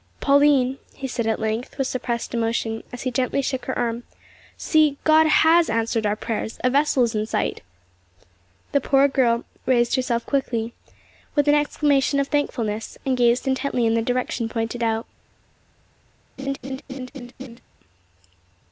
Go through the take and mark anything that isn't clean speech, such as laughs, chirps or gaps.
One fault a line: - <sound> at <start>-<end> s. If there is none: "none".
- laugh at 16.4-17.6 s